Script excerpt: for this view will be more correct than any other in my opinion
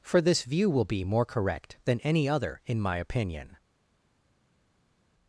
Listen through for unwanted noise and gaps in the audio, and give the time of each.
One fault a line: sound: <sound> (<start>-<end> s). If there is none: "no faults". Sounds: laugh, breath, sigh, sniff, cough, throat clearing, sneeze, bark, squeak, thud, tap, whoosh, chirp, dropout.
no faults